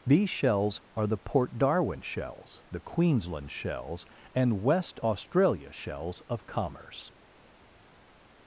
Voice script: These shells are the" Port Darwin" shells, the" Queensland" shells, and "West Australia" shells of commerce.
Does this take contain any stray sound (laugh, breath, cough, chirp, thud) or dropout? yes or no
no